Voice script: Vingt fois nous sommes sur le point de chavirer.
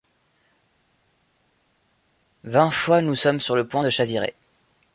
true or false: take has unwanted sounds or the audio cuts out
false